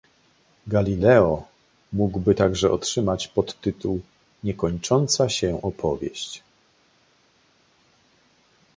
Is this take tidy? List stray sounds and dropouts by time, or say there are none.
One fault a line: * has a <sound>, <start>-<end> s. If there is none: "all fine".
all fine